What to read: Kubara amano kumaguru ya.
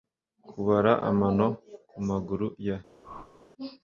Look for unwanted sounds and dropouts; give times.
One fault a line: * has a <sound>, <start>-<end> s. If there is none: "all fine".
* has a whoosh, 3.0-3.5 s